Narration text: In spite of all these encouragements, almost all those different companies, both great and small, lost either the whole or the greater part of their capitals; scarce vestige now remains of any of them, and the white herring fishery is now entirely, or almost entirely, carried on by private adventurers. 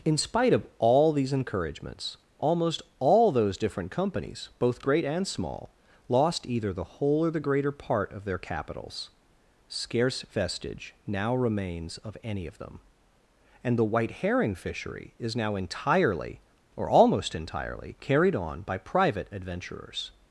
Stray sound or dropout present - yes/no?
no